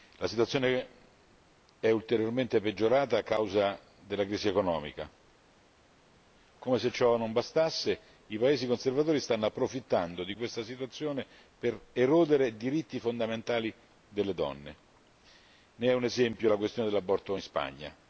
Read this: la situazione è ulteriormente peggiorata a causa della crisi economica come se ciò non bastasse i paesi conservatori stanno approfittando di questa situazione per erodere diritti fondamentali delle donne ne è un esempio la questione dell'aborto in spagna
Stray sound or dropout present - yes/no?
no